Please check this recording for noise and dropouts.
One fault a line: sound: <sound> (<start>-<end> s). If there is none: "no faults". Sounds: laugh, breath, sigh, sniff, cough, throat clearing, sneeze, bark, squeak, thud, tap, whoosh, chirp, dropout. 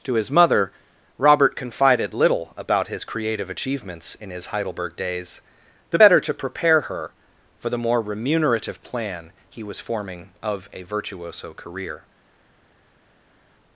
no faults